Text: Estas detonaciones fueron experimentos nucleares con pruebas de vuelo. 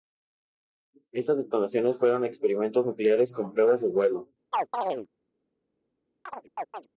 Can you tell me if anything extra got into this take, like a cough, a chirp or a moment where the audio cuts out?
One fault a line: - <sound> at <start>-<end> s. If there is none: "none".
- chirp at 4.5-5.1 s
- chirp at 6.3-6.9 s